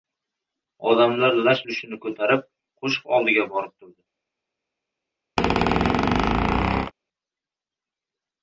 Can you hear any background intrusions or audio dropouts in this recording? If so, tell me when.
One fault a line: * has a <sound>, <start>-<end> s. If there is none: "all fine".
* has a squeak, 5.4-6.9 s